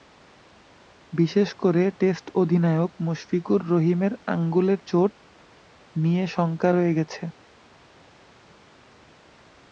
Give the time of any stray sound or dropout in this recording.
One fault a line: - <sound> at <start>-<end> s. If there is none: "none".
none